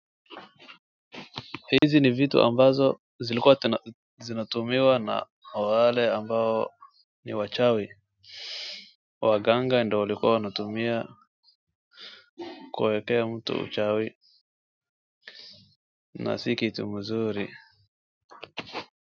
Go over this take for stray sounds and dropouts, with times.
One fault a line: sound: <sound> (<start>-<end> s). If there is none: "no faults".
sound: dropout (1.8-1.8 s)